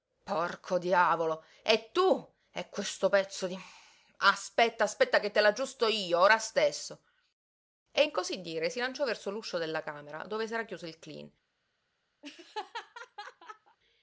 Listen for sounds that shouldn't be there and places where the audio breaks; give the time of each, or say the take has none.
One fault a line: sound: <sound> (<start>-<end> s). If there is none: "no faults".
sound: laugh (12.2-13.8 s)